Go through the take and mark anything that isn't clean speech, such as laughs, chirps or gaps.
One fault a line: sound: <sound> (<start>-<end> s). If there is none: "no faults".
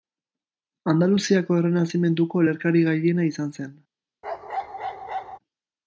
sound: bark (4.2-5.4 s)